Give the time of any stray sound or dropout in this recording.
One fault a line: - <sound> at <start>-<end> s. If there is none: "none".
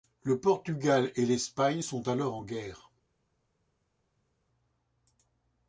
none